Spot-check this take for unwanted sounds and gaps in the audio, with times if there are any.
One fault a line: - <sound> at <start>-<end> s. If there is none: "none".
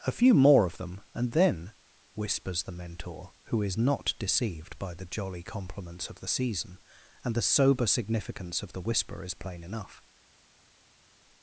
none